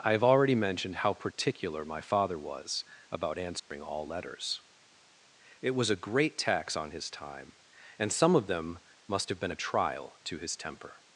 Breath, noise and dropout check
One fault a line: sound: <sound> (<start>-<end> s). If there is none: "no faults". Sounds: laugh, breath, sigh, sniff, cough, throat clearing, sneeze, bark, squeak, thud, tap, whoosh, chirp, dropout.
sound: dropout (3.6-3.7 s)